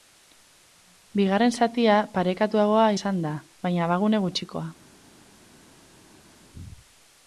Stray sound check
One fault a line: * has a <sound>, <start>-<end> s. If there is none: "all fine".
all fine